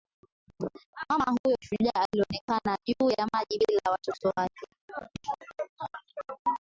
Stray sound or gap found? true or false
true